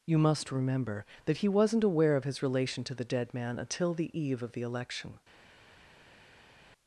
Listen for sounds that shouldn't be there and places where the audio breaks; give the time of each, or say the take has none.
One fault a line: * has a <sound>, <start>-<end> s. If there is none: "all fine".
all fine